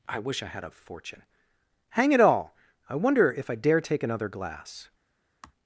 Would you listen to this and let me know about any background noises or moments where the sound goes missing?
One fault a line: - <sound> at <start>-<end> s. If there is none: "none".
- sigh at 5.4-5.5 s